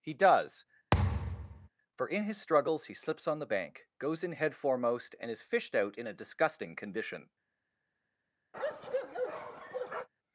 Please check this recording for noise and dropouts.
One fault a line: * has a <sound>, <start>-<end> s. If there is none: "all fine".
* has a thud, 0.9-1.7 s
* has a bark, 8.5-10.1 s